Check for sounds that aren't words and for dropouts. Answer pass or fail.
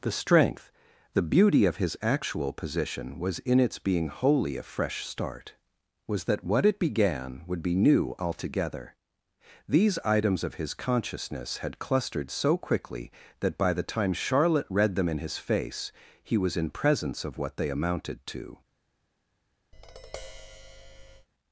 fail